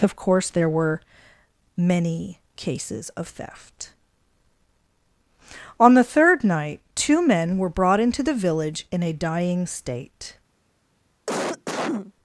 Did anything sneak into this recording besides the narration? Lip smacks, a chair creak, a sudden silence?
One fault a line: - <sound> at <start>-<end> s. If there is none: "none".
- cough at 11.3-12.1 s